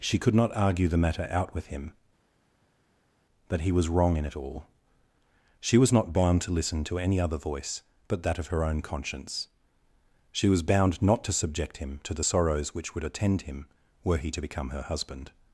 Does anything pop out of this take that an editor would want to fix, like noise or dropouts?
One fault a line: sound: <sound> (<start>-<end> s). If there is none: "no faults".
no faults